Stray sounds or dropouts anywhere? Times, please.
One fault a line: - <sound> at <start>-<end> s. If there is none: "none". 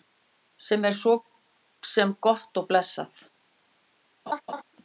- laugh at 4.3-4.6 s